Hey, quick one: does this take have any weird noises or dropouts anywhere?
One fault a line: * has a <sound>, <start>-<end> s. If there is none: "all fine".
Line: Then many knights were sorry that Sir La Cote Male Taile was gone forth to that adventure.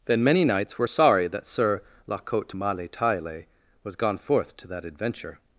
all fine